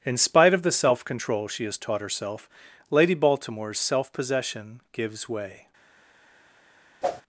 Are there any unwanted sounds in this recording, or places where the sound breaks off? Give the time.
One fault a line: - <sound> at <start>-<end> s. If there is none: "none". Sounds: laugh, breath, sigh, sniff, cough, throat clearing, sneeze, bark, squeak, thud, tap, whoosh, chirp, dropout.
- whoosh at 7.0-7.2 s